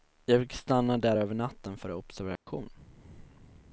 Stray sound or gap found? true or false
true